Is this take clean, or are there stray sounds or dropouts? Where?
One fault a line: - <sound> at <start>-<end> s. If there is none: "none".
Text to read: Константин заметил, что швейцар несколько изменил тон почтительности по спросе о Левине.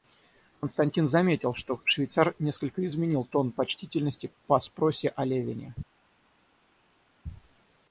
none